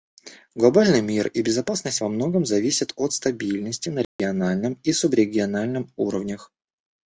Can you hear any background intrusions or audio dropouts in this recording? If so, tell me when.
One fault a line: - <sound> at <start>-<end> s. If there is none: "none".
- dropout at 4.0-4.2 s